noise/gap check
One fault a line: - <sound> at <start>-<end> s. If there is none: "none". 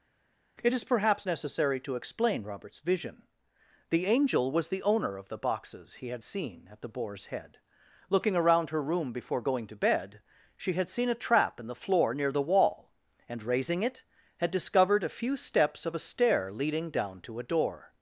none